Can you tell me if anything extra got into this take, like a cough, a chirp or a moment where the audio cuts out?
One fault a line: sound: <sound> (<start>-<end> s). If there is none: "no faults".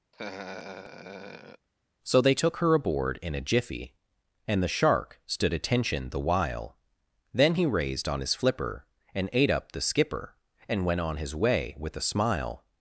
sound: laugh (0.1-1.7 s)